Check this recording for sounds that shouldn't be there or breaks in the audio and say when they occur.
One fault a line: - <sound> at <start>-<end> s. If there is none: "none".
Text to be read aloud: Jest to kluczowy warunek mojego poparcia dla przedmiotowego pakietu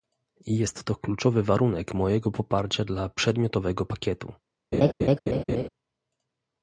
- laugh at 4.7-5.7 s